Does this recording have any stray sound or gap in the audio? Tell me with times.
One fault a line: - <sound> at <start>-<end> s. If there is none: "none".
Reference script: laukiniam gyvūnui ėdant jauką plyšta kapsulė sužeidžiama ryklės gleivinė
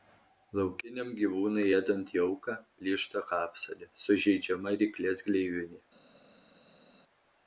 none